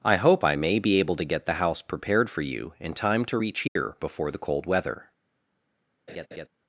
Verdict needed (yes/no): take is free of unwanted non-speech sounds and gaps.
no